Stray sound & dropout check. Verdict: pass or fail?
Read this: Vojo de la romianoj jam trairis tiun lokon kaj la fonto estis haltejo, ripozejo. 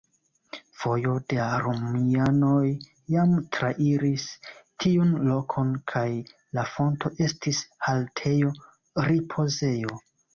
pass